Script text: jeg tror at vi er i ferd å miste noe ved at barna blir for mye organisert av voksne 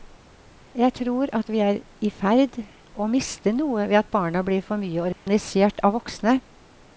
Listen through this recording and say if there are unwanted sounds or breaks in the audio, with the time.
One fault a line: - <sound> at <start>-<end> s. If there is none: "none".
- dropout at 5.1-5.3 s